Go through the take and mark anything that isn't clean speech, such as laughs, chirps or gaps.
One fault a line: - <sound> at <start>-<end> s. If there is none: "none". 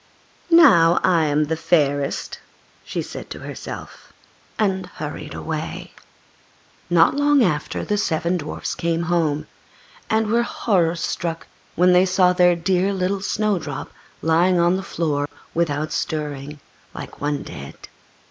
- dropout at 15.3-15.3 s